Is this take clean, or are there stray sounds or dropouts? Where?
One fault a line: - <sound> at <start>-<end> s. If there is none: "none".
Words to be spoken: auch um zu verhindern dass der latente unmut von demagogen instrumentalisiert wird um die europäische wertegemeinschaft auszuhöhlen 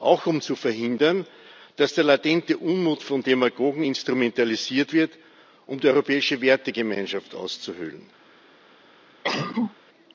- cough at 9.2-9.7 s